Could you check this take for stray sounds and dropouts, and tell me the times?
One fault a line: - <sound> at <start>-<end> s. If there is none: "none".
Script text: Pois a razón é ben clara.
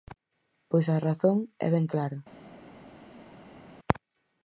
none